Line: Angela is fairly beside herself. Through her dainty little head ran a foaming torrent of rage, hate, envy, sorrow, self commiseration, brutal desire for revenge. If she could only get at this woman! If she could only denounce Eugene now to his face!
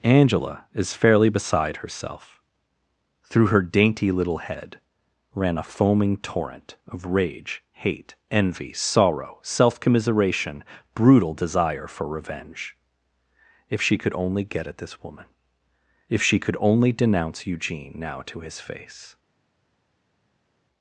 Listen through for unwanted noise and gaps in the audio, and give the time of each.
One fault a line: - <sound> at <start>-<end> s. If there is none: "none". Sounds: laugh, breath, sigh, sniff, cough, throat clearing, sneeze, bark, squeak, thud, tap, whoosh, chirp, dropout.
none